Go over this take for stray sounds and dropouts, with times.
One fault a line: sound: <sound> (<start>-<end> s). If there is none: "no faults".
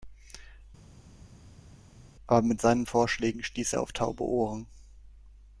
no faults